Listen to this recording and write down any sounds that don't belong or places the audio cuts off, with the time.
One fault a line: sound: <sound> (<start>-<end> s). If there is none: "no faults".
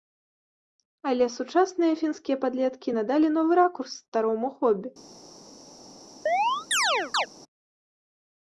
sound: chirp (6.3-7.3 s)